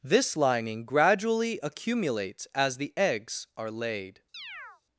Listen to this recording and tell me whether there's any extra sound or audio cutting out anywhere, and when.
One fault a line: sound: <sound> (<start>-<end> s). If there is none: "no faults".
sound: chirp (4.3-4.8 s)